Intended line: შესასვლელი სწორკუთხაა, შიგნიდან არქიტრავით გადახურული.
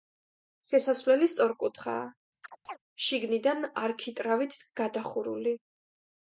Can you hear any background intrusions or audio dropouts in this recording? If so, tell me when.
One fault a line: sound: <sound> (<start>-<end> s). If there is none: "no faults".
sound: chirp (2.4-2.8 s)